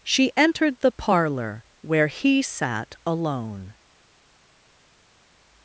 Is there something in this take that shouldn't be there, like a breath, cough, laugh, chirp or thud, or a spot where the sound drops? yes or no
no